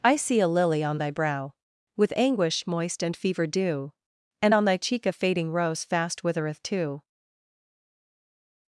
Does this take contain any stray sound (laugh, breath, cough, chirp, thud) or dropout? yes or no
no